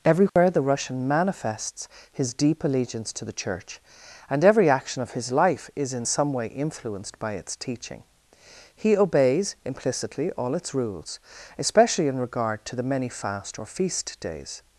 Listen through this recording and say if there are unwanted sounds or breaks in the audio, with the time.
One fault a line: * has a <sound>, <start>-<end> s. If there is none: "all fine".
* has a dropout, 0.3-0.4 s